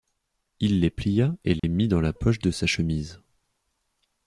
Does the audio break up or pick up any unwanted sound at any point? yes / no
yes